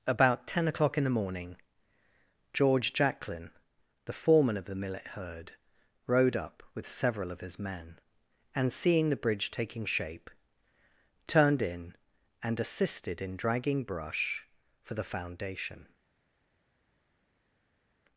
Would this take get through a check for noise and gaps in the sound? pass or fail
pass